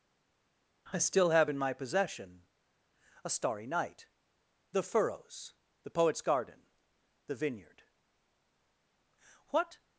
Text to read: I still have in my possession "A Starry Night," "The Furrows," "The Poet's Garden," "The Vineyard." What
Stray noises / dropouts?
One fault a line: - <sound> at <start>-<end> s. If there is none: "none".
none